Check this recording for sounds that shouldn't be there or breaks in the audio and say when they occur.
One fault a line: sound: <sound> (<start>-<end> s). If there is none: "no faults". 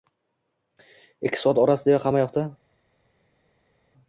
no faults